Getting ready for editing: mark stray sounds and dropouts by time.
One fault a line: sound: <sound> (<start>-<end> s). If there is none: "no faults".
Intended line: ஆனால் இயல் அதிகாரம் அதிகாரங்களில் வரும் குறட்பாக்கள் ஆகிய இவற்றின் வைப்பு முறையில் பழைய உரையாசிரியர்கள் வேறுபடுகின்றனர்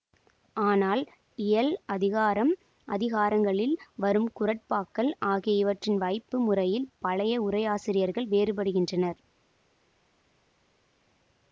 no faults